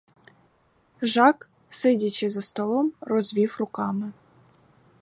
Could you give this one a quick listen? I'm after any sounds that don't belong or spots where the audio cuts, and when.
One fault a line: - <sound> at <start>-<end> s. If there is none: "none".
none